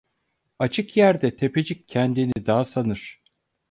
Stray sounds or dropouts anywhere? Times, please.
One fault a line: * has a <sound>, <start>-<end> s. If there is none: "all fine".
* has a dropout, 2.3-2.4 s